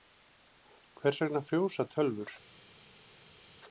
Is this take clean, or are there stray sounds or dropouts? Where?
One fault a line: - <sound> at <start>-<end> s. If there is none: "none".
none